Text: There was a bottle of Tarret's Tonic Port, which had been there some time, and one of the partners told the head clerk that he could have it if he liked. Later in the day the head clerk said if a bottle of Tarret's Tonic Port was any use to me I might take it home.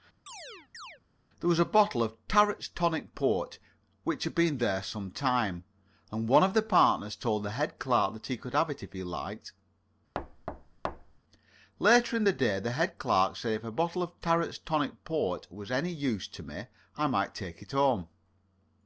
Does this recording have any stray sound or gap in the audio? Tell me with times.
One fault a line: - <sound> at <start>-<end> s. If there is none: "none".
- chirp at 0.3-1.0 s
- thud at 10.1-11.2 s